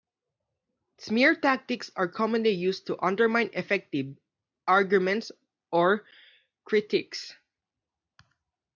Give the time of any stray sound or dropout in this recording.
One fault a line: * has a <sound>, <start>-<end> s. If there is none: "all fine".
all fine